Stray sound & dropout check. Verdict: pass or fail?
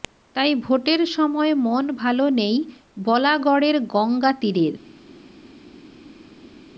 pass